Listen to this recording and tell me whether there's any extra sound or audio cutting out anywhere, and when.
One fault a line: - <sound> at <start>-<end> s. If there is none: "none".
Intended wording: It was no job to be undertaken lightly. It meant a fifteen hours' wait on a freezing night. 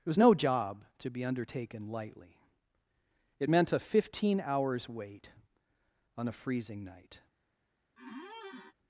- squeak at 8.0-8.7 s